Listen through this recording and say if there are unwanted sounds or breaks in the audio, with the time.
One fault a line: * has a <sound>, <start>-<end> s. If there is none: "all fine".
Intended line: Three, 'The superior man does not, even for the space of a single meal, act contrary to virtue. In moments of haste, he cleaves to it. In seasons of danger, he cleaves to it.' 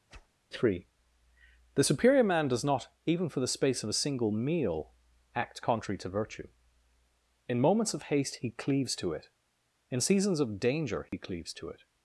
* has a whoosh, 0.1-0.3 s
* has a dropout, 11.1-11.1 s